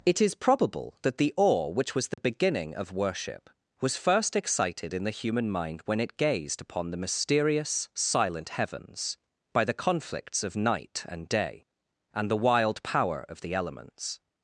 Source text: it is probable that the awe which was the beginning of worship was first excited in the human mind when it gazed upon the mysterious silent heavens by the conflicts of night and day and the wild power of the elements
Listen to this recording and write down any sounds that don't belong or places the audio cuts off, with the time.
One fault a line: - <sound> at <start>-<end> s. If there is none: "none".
- dropout at 2.1-2.2 s